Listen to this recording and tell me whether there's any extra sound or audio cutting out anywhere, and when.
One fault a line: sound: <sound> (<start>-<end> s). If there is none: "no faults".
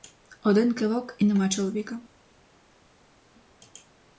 no faults